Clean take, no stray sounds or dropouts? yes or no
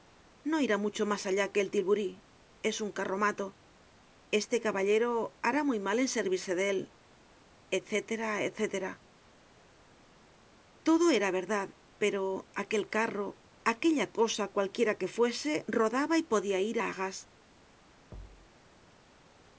no